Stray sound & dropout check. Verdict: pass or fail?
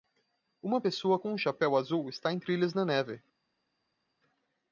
pass